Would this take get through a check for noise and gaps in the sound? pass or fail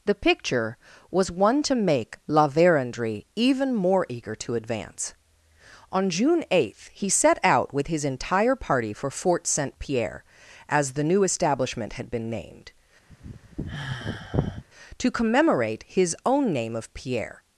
fail